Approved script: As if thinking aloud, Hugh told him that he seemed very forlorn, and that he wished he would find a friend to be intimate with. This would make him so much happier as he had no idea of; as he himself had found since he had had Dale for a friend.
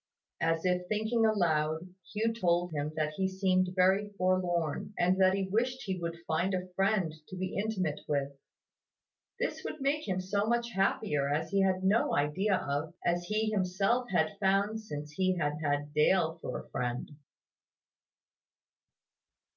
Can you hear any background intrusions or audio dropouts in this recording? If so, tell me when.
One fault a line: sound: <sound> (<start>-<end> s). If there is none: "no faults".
no faults